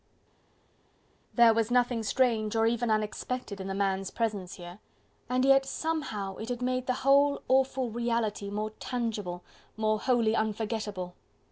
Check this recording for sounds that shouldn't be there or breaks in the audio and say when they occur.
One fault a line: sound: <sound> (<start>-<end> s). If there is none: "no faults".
no faults